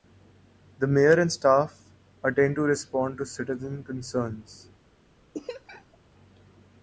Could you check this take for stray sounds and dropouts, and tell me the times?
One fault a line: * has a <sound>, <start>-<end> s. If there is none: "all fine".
* has a laugh, 5.3-6.0 s